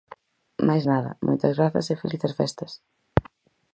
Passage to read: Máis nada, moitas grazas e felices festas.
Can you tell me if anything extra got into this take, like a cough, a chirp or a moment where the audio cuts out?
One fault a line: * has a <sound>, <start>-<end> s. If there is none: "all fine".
all fine